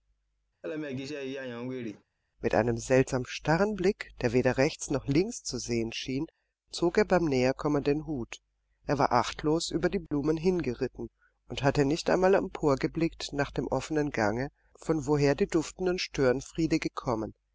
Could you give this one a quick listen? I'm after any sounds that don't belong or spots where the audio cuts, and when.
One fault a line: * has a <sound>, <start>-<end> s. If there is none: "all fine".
* has a laugh, 0.6-2.0 s
* has a dropout, 10.1-10.1 s